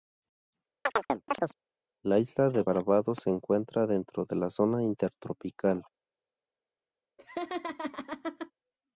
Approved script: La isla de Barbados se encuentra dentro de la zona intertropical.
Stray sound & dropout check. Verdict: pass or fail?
fail